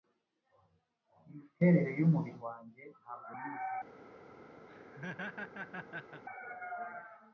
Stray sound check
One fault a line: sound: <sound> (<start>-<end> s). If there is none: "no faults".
sound: laugh (4.7-6.2 s)